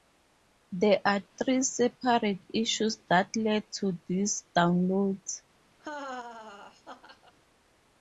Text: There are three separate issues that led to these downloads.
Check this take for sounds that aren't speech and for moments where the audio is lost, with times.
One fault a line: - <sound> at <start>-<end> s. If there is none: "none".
- laugh at 5.8-7.3 s